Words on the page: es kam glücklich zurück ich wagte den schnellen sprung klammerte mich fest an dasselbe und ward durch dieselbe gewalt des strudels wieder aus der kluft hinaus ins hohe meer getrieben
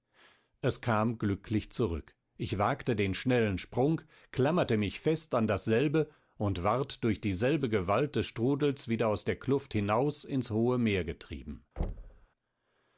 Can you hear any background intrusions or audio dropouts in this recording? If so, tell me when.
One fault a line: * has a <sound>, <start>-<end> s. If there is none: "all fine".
* has a thud, 11.8-12.3 s